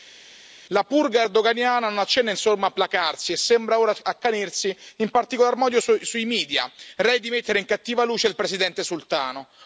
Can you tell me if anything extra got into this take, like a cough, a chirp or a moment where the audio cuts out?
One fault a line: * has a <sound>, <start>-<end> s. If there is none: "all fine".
all fine